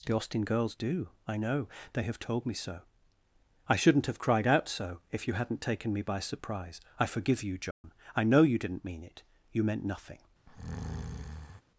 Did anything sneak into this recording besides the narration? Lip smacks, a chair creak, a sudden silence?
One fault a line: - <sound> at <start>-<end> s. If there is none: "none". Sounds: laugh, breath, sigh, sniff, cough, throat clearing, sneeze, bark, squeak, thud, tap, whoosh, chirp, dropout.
- dropout at 7.7-7.8 s
- breath at 10.5-11.6 s